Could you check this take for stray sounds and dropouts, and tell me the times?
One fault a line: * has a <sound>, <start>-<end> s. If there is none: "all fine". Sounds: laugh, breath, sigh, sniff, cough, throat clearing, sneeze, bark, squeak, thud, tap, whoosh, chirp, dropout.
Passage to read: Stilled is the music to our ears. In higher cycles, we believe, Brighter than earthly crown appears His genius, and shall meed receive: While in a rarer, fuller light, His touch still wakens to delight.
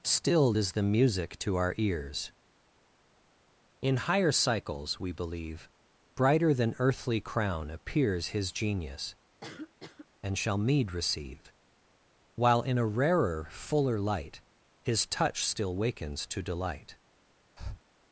* has a cough, 9.4-10.1 s
* has a breath, 17.6-17.8 s